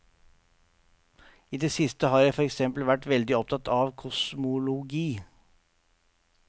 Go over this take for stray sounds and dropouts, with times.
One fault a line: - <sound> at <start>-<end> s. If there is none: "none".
none